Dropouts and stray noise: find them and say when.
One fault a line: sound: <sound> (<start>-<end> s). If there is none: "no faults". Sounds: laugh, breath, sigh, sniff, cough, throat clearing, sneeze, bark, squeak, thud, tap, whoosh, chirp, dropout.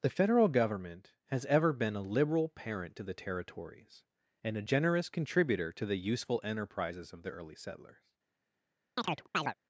sound: chirp (9.0-9.5 s)